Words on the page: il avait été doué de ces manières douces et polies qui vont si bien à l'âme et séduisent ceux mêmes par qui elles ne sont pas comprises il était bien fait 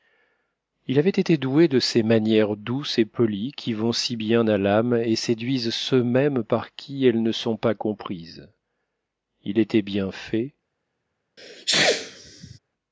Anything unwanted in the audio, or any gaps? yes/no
yes